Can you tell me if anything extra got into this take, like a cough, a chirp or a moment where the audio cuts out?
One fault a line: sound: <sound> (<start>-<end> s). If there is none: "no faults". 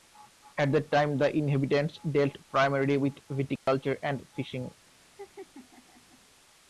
sound: dropout (3.6-3.7 s)
sound: laugh (5.0-6.2 s)